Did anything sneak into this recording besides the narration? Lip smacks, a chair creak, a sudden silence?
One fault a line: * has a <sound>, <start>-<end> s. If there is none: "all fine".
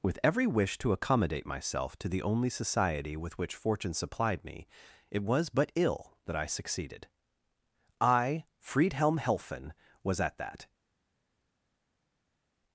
all fine